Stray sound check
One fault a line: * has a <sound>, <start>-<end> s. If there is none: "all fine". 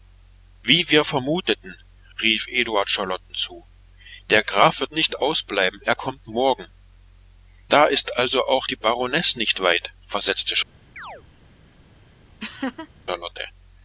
* has a chirp, 11.0-11.2 s
* has a laugh, 12.4-12.9 s